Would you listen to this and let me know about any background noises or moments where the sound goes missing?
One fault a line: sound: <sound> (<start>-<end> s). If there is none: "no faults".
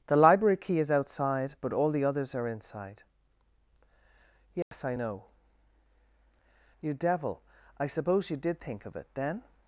sound: dropout (4.6-4.7 s)